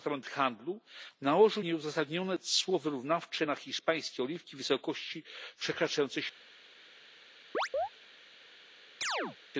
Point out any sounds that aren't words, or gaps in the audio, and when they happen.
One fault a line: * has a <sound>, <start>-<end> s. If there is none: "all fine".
* has a chirp, 7.5-7.9 s
* has a chirp, 9.0-9.4 s